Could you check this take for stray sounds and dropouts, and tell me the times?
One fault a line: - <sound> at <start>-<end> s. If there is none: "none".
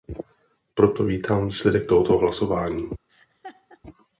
- laugh at 3.1-3.8 s